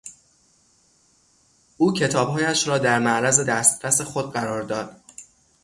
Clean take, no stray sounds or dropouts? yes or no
yes